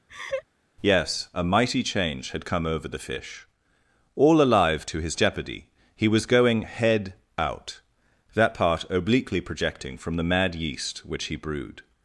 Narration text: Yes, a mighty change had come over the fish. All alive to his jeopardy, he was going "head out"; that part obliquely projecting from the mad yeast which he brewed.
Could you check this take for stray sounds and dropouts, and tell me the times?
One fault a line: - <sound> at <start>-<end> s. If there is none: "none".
- laugh at 0.1-0.4 s